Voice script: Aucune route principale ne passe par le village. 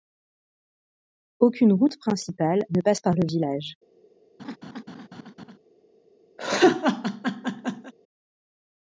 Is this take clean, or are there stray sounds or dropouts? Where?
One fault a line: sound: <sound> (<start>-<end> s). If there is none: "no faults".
sound: laugh (4.4-5.6 s)
sound: laugh (6.4-7.9 s)